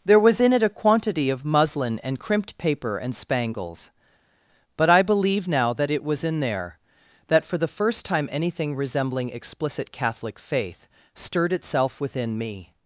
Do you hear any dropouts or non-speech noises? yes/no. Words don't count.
no